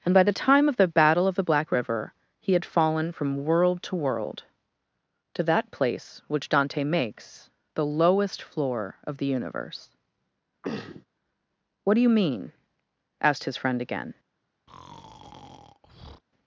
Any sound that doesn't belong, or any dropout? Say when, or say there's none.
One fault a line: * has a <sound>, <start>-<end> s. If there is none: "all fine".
* has a throat clearing, 10.6-11.1 s
* has a breath, 14.7-16.2 s